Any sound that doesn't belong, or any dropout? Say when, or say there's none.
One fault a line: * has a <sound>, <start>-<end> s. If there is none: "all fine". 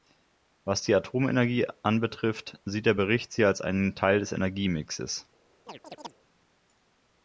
* has a chirp, 5.7-6.1 s